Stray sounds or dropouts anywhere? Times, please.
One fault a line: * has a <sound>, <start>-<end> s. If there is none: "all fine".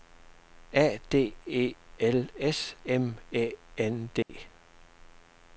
* has a dropout, 4.2-4.3 s